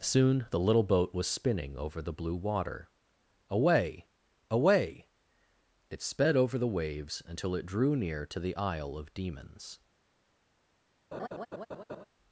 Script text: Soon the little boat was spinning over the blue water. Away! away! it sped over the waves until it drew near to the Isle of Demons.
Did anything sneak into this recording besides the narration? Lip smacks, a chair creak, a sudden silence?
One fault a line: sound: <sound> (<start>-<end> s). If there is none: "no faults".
sound: laugh (11.1-12.1 s)